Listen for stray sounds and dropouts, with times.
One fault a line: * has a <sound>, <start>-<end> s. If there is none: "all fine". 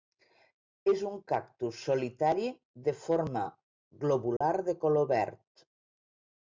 * has a dropout, 4.4-4.4 s